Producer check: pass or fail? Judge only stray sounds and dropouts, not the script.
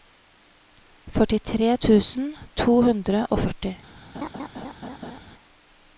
fail